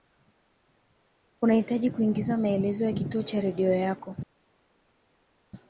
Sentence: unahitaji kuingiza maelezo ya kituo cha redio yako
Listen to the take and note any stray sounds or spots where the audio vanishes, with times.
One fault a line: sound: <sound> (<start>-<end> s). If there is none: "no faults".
no faults